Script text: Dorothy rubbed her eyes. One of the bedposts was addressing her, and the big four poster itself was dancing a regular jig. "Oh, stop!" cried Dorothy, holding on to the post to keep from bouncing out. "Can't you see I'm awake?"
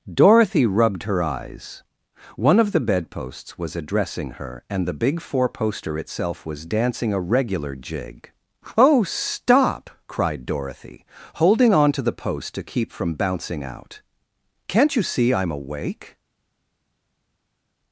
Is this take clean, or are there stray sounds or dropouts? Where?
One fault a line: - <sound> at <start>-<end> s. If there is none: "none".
none